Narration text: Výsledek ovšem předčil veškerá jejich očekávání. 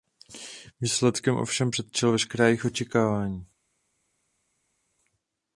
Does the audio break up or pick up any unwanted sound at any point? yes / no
no